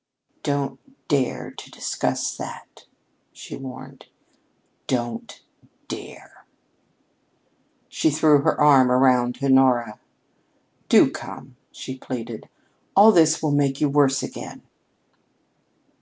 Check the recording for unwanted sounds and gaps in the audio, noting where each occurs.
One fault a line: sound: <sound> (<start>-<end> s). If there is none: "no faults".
no faults